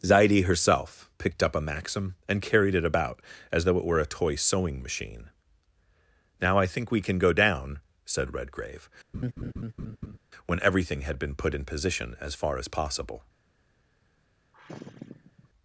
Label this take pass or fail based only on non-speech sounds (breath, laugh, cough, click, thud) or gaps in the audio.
fail